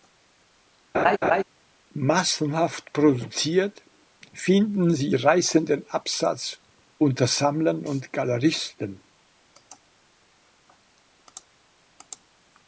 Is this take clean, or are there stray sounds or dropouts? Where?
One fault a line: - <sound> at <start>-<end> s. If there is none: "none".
- laugh at 0.9-1.4 s